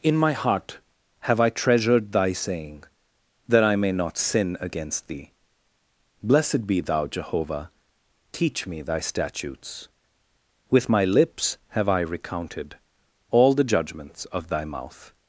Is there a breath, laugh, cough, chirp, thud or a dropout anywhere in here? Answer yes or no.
no